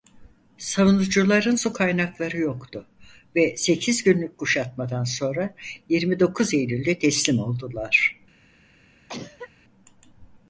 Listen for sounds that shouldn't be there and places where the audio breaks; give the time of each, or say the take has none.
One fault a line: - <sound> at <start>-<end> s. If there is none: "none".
- cough at 9.1-9.5 s